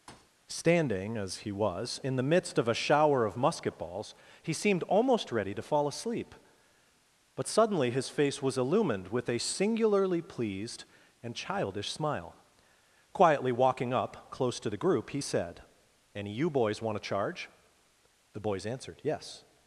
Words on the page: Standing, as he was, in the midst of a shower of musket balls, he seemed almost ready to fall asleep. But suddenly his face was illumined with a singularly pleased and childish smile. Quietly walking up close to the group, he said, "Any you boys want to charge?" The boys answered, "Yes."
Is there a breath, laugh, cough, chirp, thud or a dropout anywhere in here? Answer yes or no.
yes